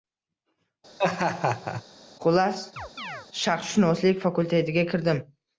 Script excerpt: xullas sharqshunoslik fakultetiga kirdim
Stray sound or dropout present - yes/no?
yes